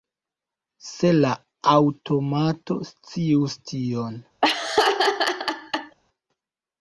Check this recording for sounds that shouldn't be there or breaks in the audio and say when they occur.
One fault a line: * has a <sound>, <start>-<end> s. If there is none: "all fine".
* has a laugh, 4.4-6.0 s